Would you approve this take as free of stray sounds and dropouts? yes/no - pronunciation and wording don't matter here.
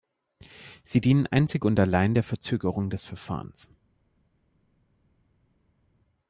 yes